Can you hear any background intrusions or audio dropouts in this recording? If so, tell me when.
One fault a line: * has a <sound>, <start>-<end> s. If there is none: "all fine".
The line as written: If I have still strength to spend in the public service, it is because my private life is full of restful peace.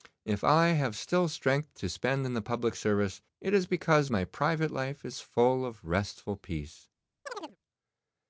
* has a chirp, 7.3-7.6 s